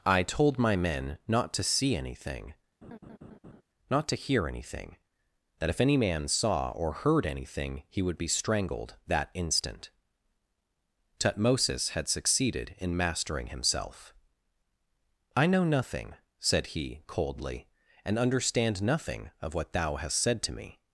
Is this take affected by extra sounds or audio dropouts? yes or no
yes